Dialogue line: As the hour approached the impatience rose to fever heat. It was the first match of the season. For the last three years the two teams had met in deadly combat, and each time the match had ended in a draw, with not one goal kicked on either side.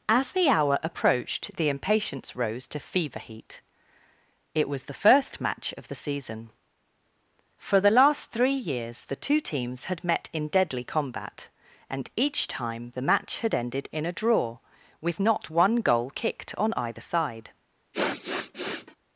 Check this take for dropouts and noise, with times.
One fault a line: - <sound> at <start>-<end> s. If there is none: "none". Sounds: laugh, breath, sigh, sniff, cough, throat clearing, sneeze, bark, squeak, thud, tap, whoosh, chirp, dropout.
- sniff at 17.9-19.0 s